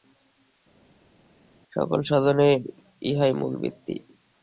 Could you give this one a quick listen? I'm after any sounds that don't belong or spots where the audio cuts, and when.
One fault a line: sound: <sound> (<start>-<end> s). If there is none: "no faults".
no faults